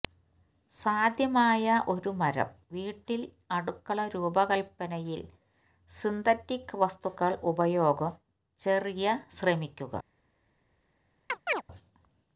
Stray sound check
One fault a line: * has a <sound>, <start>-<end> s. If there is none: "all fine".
* has a chirp, 11.3-11.6 s